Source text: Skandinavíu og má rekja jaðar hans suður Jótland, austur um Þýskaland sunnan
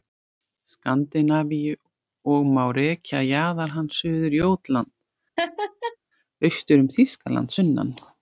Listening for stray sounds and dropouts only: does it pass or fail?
fail